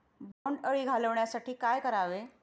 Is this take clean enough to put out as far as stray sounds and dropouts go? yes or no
no